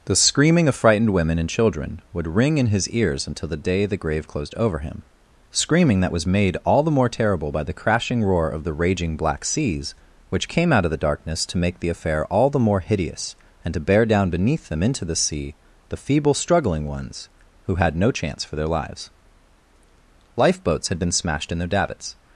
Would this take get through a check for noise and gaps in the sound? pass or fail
pass